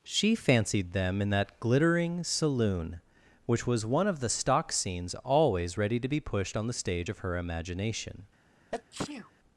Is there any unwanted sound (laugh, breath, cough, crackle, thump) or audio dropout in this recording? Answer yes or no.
yes